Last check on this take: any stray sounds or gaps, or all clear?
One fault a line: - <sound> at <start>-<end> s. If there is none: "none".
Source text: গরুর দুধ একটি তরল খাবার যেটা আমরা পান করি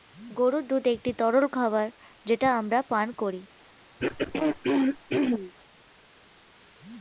- throat clearing at 4.0-5.5 s